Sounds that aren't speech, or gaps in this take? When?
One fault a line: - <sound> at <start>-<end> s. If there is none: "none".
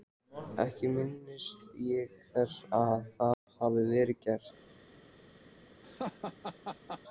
- dropout at 3.3-3.5 s
- laugh at 5.8-7.0 s